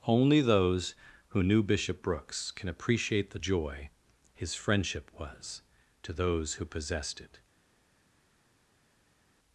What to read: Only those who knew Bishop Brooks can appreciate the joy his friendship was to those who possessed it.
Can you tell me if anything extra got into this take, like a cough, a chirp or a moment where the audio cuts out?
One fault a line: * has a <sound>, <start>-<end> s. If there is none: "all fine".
all fine